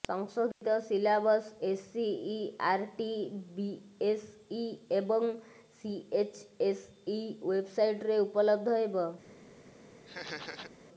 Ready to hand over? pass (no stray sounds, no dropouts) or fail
fail